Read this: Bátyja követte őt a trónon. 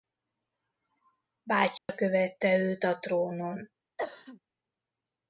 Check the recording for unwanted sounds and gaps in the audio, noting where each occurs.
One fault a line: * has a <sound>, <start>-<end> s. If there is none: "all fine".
* has a dropout, 1.8-1.9 s
* has a cough, 4.0-4.4 s